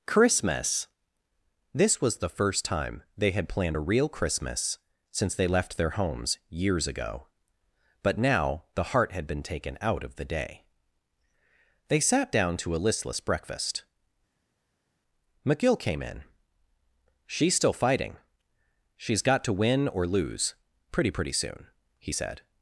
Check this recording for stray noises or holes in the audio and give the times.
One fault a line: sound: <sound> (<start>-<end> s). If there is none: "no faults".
no faults